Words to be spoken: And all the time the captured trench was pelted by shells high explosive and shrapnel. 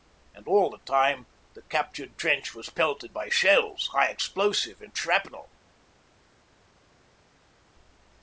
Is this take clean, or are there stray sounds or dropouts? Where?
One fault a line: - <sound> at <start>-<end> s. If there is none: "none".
none